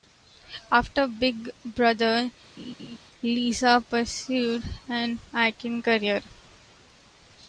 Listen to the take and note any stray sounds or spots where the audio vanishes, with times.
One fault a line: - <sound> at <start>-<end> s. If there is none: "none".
- laugh at 2.6-3.0 s